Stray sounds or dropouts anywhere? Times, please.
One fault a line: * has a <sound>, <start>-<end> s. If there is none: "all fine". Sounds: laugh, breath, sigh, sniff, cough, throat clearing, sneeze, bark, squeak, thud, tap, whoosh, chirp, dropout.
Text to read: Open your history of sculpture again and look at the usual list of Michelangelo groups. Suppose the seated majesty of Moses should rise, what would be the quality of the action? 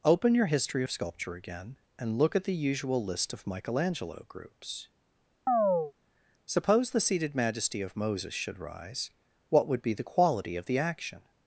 * has a chirp, 5.5-5.9 s